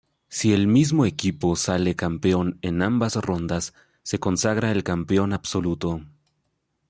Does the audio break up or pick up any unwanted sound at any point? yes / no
no